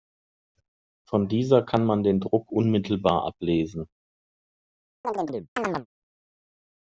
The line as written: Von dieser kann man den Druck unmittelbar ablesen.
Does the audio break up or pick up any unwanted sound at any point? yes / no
yes